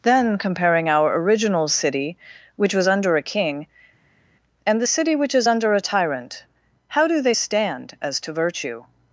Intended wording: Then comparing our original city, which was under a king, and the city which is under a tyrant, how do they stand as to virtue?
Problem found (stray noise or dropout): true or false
false